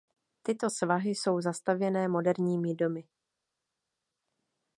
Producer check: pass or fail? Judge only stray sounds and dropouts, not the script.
pass